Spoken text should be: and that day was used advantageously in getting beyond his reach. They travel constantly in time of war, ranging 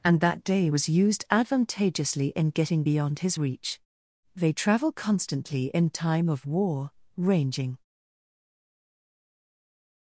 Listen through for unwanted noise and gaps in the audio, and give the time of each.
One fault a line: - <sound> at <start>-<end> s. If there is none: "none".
none